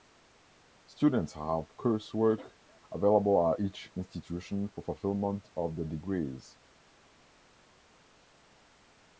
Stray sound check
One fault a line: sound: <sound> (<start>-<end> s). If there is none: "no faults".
no faults